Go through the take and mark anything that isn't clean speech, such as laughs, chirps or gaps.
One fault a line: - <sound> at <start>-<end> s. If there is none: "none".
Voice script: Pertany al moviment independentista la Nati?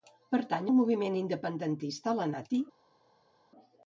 none